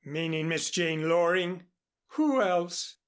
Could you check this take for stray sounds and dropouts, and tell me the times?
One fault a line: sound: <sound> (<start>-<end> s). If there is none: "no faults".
no faults